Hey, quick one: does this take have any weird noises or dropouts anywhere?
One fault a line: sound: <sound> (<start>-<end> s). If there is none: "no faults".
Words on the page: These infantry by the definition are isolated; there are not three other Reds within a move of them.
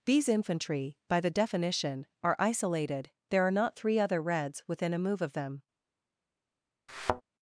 sound: thud (6.9-7.2 s)